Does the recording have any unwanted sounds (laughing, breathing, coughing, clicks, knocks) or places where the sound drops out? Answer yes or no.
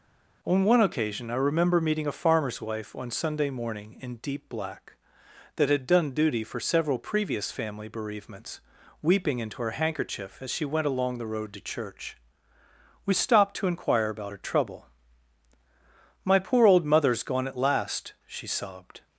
no